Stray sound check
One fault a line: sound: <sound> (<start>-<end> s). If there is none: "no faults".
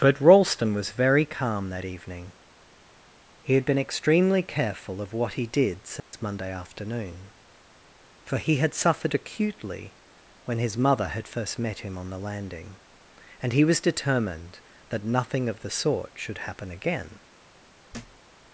sound: dropout (6.0-6.1 s)
sound: thud (17.9-18.2 s)